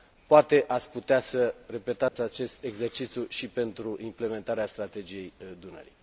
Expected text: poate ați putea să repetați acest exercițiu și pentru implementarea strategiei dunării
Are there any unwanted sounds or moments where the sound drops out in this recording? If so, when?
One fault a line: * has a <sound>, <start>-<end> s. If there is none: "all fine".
* has a dropout, 2.1-2.2 s